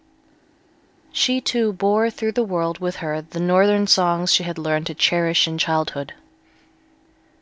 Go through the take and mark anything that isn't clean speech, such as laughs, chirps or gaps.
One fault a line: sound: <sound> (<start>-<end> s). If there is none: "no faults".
no faults